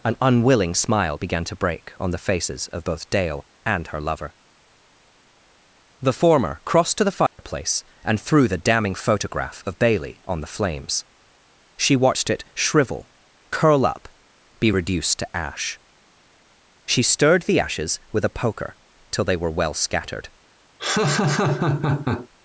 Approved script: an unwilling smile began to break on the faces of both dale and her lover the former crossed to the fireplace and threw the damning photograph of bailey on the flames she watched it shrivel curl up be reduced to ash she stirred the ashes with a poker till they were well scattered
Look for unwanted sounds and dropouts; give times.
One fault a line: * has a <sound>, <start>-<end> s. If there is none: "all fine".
* has a dropout, 7.3-7.4 s
* has a laugh, 20.8-22.3 s